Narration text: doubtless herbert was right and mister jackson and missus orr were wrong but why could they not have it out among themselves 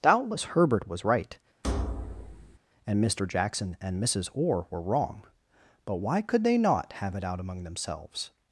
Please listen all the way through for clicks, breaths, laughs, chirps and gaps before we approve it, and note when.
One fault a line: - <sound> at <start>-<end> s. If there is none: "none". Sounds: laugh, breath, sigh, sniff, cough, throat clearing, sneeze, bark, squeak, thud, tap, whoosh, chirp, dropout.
- thud at 1.6-2.6 s